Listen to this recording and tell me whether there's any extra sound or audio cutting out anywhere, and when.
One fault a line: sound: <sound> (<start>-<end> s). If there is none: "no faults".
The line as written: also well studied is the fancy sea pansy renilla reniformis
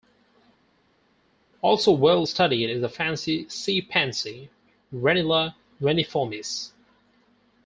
no faults